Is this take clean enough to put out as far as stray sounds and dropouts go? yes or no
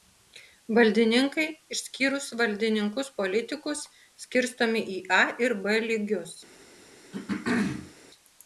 no